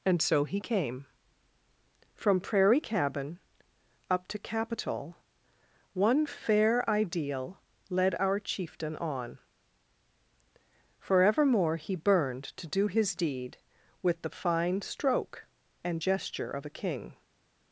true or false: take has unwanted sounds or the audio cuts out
false